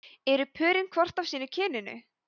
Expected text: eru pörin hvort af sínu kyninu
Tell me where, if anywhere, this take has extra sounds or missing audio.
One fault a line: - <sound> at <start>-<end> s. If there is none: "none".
none